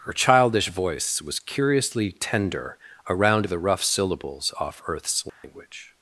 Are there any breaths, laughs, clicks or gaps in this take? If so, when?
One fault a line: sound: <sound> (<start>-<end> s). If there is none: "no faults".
sound: dropout (5.3-5.4 s)